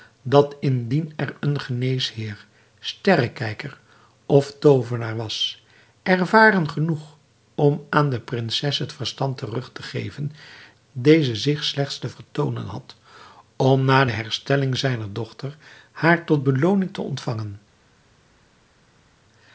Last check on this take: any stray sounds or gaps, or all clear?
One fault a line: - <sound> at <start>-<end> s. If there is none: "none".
none